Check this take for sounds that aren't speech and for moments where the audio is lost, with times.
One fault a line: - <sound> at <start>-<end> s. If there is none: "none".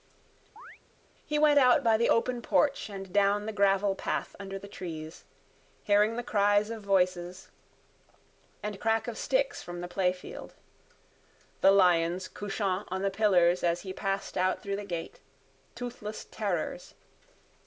- chirp at 0.6-0.8 s